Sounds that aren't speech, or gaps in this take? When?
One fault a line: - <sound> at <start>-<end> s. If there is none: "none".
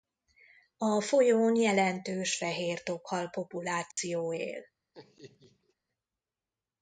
- dropout at 3.9-4.0 s
- laugh at 4.9-5.7 s